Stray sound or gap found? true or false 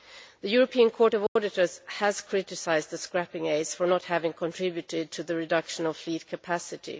true